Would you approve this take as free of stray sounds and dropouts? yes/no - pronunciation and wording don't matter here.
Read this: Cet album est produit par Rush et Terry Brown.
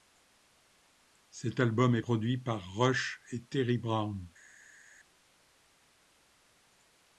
yes